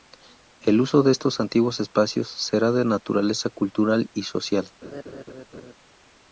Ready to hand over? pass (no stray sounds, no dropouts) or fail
fail